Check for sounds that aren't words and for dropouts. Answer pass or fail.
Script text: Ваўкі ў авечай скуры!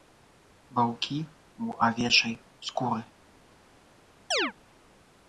fail